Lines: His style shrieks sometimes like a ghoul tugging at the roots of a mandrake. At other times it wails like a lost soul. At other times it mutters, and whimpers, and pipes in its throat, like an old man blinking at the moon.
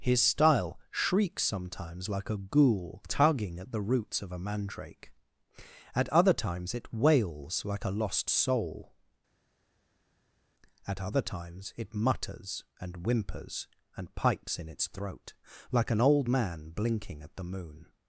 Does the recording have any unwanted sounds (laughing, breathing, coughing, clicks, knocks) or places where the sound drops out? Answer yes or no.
no